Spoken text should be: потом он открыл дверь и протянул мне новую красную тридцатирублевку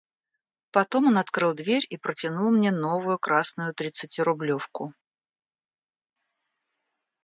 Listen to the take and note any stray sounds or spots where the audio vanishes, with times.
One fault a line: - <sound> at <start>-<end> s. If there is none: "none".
none